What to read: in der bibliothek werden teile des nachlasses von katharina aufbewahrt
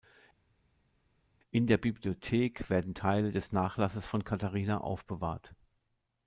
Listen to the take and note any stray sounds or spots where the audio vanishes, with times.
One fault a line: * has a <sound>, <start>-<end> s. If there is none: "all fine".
all fine